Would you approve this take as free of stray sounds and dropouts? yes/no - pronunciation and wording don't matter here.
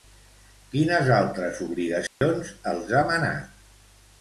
no